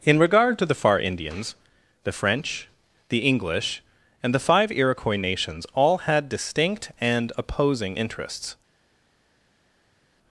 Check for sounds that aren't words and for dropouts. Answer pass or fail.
pass